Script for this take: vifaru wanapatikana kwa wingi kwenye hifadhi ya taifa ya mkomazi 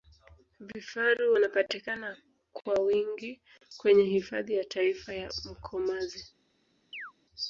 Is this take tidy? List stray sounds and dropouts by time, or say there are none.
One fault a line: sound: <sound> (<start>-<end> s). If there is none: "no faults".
sound: chirp (6.9-7.1 s)